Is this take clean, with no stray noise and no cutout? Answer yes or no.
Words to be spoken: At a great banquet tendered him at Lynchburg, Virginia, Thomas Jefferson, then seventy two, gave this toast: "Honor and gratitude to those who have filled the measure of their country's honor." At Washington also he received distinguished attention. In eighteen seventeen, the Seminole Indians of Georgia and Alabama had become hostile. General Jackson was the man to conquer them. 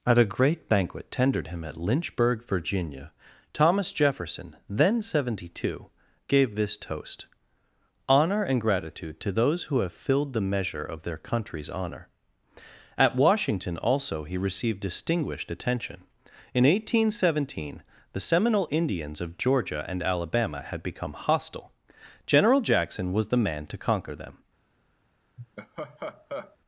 no